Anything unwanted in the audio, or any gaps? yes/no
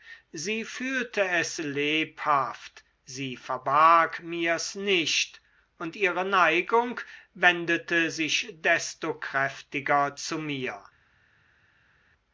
no